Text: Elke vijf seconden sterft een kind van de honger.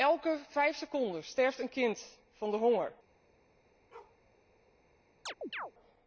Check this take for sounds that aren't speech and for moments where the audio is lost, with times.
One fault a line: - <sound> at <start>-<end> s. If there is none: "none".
- bark at 3.9-4.2 s
- chirp at 5.3-5.7 s